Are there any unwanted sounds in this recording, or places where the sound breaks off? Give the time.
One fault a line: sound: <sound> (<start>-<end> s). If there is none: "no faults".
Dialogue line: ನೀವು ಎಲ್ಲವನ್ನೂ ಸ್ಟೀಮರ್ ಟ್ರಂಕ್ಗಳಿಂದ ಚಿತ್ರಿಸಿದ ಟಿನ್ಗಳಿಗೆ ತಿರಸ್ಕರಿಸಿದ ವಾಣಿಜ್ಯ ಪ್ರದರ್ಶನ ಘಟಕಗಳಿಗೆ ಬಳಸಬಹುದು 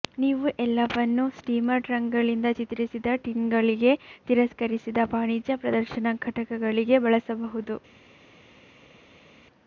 no faults